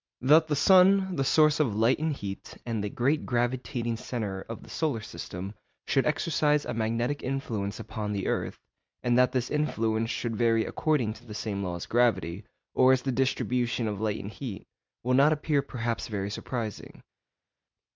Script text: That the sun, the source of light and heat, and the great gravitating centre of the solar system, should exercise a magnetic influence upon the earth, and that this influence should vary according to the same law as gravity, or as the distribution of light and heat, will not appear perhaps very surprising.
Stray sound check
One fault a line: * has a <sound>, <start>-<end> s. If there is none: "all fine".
all fine